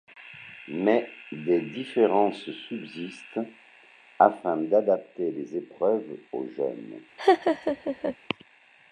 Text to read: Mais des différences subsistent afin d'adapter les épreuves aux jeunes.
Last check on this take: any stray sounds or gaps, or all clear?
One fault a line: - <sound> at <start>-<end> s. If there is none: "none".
- laugh at 7.2-8.2 s